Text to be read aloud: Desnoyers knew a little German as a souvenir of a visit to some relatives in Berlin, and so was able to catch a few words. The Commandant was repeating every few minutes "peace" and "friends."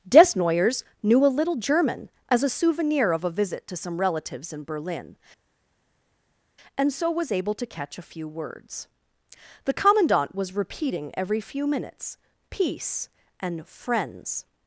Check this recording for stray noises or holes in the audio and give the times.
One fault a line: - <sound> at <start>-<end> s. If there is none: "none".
none